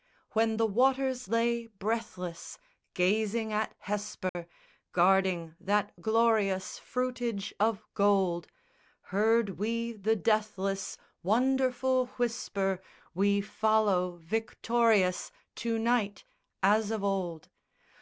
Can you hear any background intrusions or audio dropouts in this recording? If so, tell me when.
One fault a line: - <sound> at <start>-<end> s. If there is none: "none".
- dropout at 4.3-4.3 s